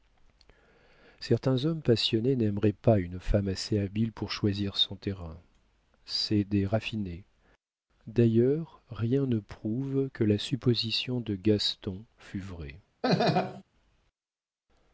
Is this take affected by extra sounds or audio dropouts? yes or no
yes